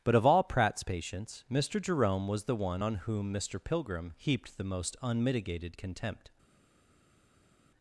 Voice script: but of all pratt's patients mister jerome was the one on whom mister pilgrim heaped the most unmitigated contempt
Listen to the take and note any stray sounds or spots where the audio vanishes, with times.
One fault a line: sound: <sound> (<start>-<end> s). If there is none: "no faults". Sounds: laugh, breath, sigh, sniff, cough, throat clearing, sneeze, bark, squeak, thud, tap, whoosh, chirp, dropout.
no faults